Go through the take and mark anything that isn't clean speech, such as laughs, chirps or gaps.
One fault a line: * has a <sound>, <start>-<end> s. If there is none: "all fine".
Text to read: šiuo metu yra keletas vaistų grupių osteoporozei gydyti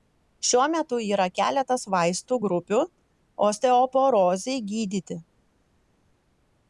all fine